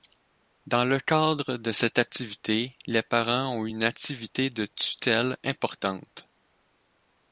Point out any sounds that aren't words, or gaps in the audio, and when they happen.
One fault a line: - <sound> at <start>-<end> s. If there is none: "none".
none